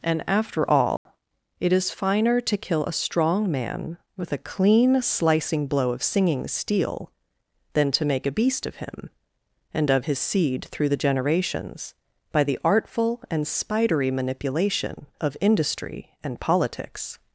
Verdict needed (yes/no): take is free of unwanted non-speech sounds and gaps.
no